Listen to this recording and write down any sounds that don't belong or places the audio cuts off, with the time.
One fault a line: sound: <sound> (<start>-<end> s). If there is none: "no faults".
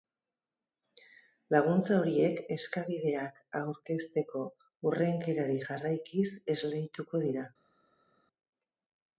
no faults